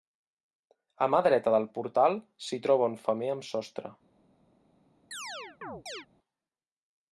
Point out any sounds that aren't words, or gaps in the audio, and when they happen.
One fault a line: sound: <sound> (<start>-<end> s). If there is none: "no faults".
sound: chirp (5.1-6.1 s)